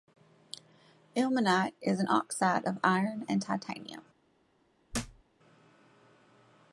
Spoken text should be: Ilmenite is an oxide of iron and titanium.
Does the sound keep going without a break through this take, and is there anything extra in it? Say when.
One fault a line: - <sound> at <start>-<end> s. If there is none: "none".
- thud at 4.9-5.2 s